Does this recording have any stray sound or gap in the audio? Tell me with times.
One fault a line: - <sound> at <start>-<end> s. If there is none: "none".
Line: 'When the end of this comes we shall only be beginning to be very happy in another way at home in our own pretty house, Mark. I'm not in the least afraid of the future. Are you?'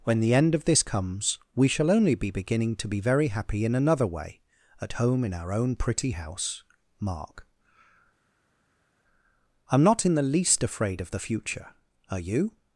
none